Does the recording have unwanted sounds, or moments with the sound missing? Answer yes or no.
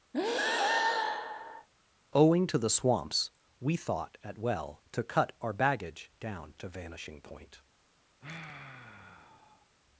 yes